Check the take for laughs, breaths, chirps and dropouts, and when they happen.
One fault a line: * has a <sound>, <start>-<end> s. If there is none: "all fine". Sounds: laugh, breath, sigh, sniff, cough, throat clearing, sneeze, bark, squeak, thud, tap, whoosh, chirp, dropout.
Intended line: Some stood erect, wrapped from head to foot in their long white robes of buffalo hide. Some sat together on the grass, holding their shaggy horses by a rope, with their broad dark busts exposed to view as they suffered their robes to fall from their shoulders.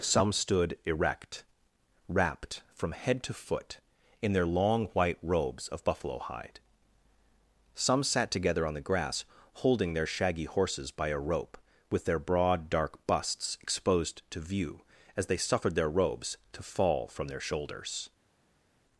all fine